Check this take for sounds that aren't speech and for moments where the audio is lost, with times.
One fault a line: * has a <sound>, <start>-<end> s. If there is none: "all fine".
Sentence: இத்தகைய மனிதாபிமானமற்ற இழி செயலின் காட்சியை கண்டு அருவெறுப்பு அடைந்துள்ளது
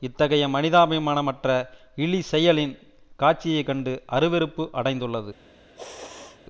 * has a sneeze, 5.8-6.4 s